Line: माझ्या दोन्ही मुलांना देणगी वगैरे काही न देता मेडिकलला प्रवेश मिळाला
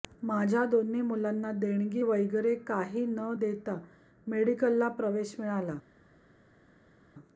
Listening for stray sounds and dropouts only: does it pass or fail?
pass